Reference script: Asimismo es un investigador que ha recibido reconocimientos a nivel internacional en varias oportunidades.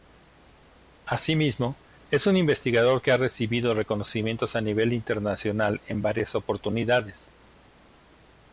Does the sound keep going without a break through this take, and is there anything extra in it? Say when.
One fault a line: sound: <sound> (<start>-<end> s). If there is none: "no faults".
no faults